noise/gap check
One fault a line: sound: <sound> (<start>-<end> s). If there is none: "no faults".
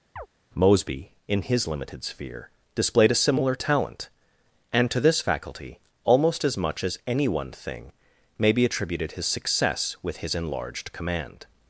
sound: chirp (0.2-0.3 s)